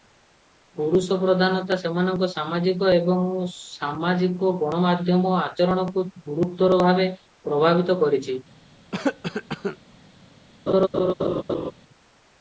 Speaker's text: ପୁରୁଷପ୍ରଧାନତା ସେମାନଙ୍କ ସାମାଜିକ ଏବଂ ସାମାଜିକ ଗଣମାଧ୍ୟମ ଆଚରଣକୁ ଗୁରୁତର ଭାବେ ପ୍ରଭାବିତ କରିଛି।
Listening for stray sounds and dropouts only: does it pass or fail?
fail